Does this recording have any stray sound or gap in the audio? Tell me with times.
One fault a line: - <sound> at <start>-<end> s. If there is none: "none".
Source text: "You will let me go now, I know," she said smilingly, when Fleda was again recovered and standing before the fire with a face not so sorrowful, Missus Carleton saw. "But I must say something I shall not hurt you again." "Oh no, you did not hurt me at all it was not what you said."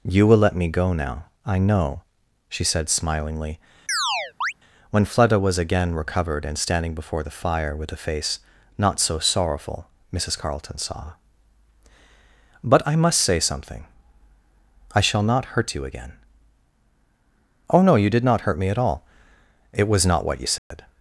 - chirp at 3.9-4.5 s
- dropout at 20.6-20.7 s